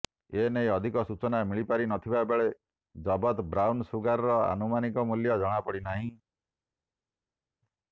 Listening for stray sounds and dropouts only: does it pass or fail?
pass